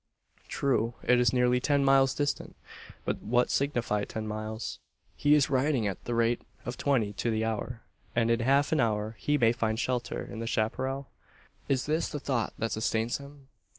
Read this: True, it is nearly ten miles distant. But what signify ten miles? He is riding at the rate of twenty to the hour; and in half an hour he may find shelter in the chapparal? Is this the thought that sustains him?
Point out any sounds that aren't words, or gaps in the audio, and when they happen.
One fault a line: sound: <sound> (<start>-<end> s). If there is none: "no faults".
no faults